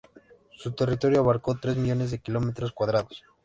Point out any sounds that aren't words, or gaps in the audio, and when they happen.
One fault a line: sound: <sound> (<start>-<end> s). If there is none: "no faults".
no faults